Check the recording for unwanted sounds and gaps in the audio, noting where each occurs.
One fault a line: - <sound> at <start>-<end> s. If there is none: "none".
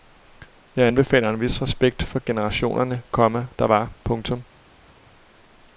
none